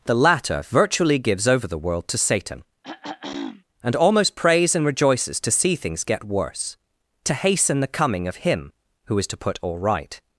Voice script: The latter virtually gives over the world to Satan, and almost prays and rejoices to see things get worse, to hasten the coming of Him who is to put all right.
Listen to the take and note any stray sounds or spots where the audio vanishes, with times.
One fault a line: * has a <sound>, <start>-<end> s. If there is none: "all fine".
* has a throat clearing, 2.8-3.6 s